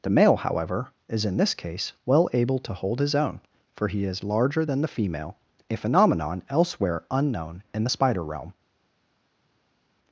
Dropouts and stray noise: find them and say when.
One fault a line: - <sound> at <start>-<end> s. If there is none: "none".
none